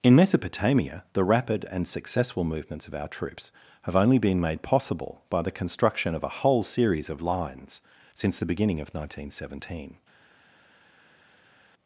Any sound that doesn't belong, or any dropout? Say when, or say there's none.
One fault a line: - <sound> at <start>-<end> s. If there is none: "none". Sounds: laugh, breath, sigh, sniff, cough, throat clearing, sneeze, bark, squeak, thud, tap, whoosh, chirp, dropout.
none